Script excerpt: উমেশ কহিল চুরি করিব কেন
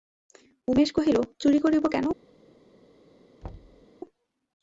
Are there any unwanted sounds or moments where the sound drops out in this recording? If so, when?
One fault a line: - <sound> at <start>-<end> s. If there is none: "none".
- thud at 3.4-3.9 s